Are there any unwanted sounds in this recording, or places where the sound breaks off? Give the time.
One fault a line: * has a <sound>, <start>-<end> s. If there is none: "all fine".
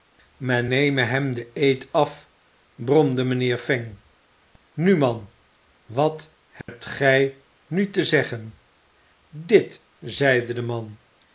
* has a dropout, 6.6-6.7 s